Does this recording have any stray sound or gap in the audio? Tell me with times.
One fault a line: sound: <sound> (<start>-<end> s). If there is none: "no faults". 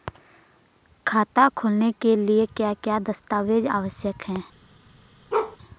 sound: bark (5.3-5.6 s)